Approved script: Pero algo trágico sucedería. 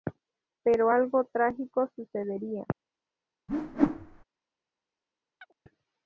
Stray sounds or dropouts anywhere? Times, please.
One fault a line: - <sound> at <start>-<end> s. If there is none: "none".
- whoosh at 3.5-4.2 s
- chirp at 5.4-5.6 s